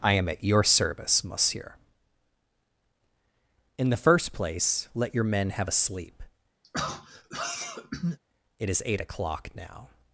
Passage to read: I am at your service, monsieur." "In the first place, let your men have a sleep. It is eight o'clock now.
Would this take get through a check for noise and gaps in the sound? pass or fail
fail